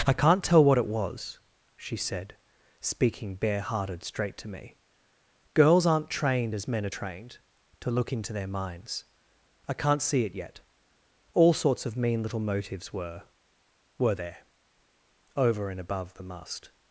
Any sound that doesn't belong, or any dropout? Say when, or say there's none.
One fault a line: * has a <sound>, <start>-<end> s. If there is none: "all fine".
all fine